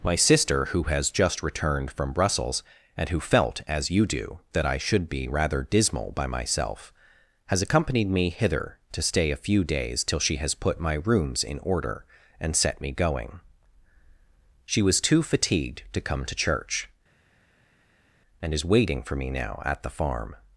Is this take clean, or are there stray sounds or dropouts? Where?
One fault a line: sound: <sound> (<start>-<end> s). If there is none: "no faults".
no faults